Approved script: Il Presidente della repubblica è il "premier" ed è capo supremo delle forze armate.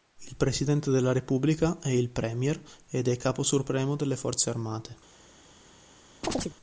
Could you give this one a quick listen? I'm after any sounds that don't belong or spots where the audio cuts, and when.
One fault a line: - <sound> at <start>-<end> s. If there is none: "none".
- chirp at 6.2-6.6 s